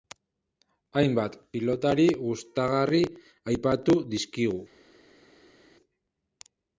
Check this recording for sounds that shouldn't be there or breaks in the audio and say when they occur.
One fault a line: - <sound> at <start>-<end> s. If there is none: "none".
none